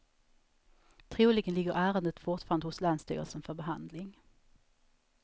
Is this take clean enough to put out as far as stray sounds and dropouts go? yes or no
yes